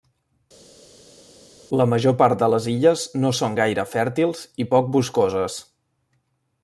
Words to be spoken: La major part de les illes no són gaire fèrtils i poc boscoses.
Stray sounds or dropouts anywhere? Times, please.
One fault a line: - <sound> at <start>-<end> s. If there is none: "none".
none